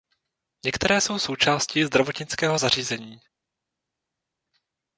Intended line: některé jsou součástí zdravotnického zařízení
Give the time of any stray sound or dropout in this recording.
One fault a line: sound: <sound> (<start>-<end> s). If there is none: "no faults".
no faults